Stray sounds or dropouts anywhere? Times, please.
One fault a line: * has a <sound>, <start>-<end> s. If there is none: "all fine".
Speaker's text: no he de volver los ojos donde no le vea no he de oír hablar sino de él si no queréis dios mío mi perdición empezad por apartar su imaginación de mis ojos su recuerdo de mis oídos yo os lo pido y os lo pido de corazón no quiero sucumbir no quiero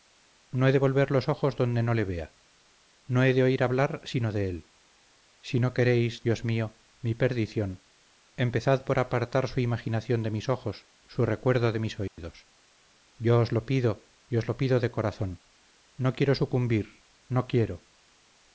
* has a dropout, 12.1-12.2 s